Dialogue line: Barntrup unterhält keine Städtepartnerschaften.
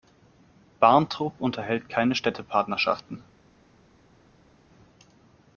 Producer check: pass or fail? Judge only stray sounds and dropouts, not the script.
pass